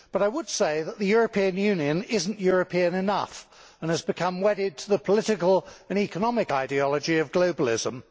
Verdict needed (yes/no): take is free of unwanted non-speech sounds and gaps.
yes